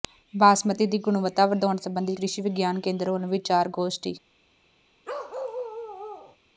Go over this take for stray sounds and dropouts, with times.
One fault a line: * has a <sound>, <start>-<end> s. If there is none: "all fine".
* has a bark, 5.0-6.4 s